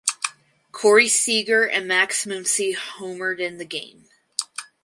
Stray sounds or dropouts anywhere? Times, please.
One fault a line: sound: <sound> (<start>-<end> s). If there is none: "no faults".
no faults